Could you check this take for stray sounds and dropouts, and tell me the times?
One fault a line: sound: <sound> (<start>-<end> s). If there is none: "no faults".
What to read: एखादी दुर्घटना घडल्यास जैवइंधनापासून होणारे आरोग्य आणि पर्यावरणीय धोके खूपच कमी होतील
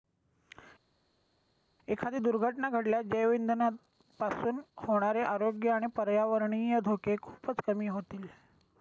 no faults